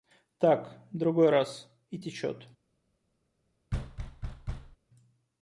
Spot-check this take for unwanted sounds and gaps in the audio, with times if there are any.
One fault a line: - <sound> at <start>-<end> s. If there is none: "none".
- thud at 3.7-4.8 s